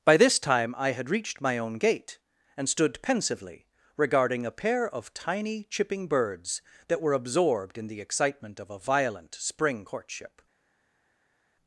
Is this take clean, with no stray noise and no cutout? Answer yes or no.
yes